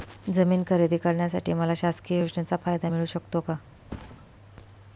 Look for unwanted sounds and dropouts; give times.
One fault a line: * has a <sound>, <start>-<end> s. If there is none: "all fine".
* has a thud, 3.9-4.3 s